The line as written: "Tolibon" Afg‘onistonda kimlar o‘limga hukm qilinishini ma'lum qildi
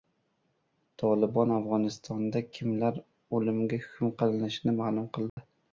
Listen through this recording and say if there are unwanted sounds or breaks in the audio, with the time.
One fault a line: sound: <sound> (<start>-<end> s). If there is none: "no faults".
sound: dropout (5.3-5.4 s)